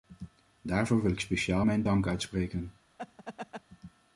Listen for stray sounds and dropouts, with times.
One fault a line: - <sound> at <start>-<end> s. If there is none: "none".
- laugh at 3.0-3.6 s